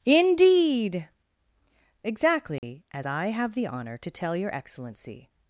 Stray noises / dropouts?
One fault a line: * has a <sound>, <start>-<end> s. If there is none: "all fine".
* has a dropout, 2.6-2.6 s